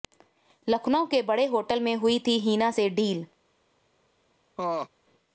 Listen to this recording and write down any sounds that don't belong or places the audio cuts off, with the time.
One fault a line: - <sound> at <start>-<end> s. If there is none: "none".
- laugh at 4.6-4.9 s